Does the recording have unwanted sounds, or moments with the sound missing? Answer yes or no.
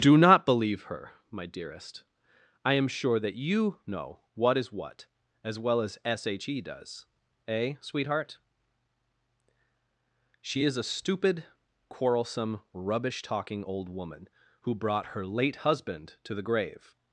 no